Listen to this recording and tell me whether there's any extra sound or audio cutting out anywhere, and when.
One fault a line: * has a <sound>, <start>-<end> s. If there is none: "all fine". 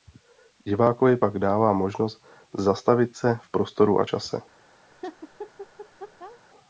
* has a laugh, 4.9-6.4 s